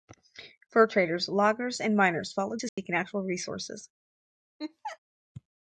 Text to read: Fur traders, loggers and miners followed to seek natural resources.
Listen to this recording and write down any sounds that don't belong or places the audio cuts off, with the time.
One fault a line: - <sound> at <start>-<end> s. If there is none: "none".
- dropout at 2.7-2.8 s
- laugh at 4.6-5.0 s